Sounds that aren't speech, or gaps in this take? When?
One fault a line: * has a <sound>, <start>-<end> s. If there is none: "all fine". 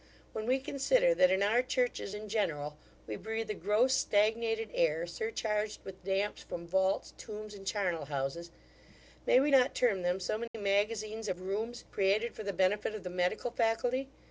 * has a dropout, 10.5-10.5 s